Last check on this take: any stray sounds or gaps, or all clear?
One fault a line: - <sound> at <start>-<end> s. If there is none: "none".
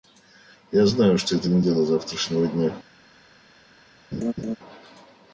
- laugh at 4.1-4.6 s